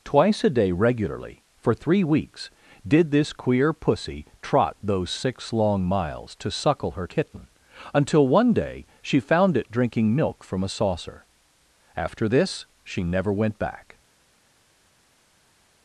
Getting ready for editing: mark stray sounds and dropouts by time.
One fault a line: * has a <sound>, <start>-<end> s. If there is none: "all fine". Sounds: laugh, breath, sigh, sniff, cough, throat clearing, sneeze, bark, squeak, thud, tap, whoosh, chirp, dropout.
all fine